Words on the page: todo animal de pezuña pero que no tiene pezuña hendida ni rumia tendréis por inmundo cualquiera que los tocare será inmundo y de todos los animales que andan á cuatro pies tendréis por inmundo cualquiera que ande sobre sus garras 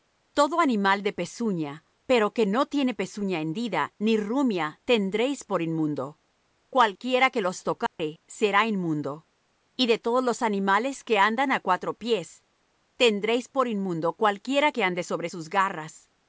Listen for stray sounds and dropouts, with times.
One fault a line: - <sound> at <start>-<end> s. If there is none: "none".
- dropout at 7.9-8.0 s